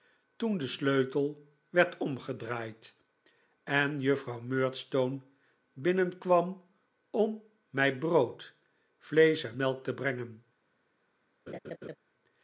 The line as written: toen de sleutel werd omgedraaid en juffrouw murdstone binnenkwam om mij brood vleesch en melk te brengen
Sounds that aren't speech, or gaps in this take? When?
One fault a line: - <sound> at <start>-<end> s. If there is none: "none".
- laugh at 11.5-12.0 s